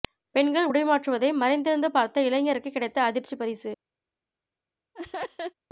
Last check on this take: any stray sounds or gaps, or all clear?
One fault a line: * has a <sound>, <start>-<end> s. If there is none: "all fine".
* has a laugh, 4.9-5.5 s